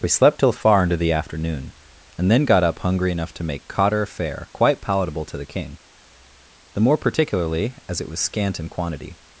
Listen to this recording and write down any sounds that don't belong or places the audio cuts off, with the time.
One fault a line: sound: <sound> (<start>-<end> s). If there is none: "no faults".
no faults